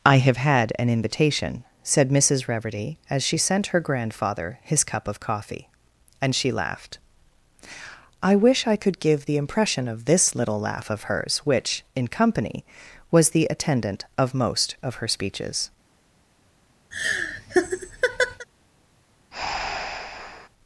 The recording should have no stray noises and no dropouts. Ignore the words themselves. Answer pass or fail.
fail